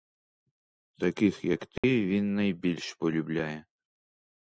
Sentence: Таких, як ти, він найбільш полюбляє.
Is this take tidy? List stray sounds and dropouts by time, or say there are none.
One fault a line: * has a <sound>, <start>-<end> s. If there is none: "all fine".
* has a dropout, 1.8-1.8 s